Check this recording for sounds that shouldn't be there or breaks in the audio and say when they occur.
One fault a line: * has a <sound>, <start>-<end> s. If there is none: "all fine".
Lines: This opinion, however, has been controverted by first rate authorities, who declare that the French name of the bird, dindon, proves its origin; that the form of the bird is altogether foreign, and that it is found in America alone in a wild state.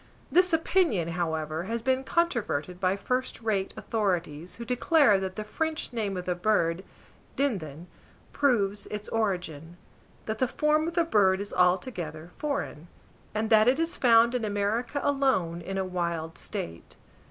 all fine